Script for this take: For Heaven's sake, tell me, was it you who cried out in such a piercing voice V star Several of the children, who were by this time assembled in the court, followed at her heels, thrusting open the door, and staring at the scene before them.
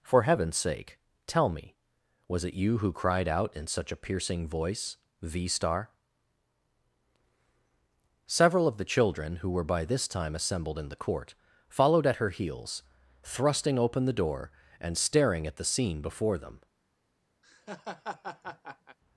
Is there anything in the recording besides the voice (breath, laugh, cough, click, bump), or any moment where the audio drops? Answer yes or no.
yes